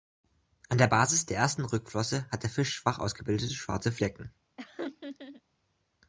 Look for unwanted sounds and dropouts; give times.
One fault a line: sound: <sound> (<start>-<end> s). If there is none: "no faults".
sound: laugh (4.6-5.4 s)